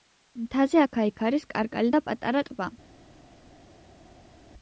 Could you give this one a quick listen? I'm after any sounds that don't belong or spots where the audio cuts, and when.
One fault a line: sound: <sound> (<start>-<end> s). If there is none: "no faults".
no faults